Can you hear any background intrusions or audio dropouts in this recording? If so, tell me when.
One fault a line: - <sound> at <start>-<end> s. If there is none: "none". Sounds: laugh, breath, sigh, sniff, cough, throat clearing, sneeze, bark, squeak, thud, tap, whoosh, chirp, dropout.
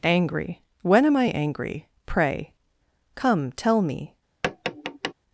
- tap at 4.4-5.1 s